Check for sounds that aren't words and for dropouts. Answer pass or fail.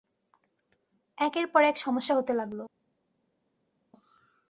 pass